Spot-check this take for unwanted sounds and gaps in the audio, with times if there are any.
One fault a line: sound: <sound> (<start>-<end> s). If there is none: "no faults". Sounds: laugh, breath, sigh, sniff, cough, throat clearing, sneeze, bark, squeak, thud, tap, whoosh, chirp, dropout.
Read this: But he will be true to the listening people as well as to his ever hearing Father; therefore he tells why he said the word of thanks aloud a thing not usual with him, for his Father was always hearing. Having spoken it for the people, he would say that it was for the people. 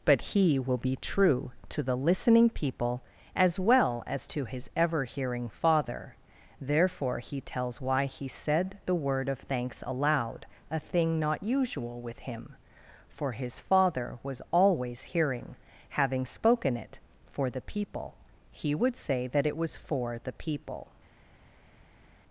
no faults